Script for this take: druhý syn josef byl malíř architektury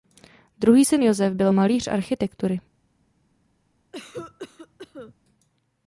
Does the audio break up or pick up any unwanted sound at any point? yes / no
yes